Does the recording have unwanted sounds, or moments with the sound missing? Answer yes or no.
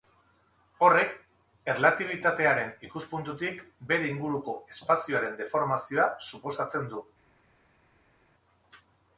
no